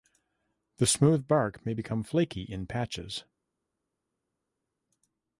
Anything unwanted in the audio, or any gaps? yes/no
no